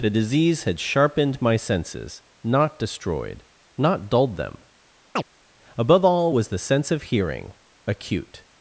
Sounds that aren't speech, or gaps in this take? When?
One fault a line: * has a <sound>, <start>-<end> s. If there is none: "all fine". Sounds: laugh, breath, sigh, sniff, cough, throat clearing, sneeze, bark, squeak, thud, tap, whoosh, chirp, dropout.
* has a chirp, 5.2-5.2 s